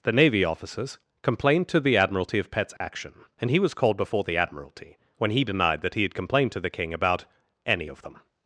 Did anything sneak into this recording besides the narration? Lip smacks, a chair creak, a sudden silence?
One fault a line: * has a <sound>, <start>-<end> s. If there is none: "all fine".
* has a dropout, 2.8-2.8 s